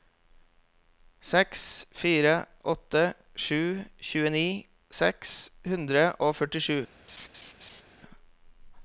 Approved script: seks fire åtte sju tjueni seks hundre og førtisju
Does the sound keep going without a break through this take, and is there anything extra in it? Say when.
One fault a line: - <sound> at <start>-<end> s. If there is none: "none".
- laugh at 7.1-7.8 s